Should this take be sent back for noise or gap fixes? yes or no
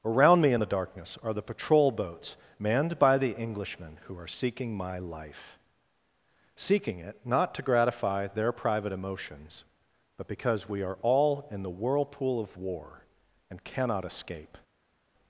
no